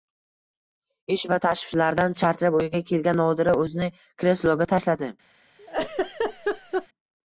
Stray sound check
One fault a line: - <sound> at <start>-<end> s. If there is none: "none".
- laugh at 5.6-6.9 s